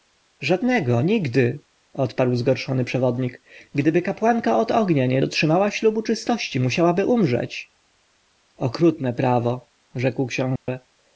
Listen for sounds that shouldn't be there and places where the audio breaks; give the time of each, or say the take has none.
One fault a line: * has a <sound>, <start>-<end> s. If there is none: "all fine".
* has a dropout, 10.6-10.7 s